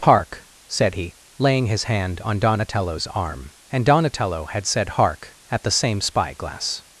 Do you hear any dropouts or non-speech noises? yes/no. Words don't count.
no